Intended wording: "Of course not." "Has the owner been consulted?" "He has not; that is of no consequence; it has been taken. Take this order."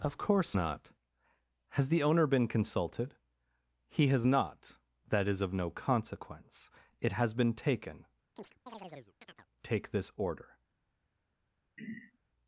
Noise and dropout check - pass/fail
fail